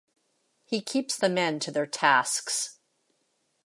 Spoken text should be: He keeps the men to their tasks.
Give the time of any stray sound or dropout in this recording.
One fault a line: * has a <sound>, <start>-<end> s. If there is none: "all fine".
all fine